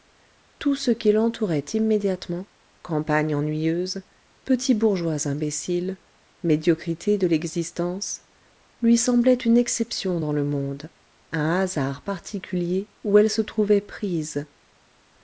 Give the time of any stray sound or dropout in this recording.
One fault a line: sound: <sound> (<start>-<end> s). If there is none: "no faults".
no faults